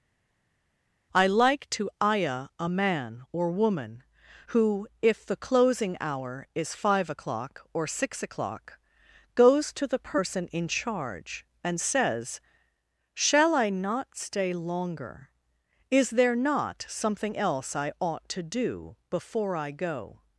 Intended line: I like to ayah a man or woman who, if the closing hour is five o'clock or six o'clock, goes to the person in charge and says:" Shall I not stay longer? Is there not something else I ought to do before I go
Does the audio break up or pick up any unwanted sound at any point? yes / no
no